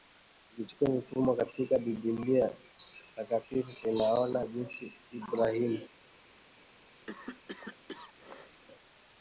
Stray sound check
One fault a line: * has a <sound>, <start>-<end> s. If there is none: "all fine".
* has a cough, 7.1-8.6 s